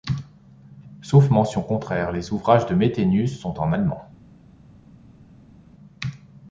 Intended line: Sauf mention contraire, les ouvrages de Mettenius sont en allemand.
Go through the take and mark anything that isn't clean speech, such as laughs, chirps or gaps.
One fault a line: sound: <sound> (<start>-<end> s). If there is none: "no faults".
no faults